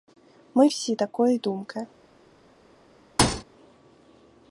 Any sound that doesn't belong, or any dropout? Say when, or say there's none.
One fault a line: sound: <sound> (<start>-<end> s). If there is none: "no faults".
sound: thud (3.2-3.4 s)